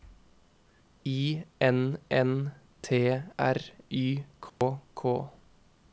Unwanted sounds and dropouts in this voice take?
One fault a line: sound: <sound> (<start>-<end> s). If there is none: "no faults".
sound: dropout (4.5-4.6 s)